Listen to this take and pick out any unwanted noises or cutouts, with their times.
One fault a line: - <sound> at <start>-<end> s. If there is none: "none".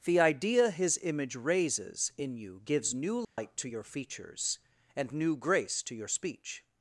- dropout at 3.2-3.4 s